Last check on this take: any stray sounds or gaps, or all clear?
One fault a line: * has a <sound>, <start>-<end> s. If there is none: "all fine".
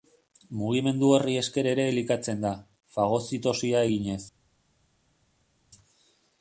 all fine